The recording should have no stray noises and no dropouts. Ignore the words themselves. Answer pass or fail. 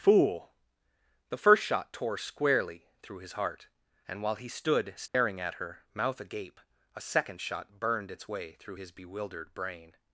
fail